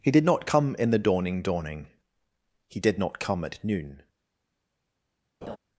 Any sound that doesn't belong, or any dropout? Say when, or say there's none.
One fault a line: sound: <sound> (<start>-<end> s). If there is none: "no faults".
sound: laugh (5.4-5.6 s)